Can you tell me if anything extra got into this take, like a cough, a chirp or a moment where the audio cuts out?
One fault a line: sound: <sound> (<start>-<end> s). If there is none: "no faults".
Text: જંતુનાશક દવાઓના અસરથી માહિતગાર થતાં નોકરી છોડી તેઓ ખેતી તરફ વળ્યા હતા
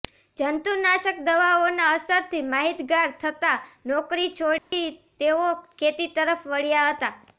sound: dropout (4.6-4.7 s)